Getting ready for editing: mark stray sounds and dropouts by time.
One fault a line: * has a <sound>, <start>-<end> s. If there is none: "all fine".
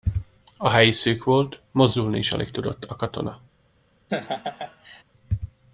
* has a laugh, 4.1-5.0 s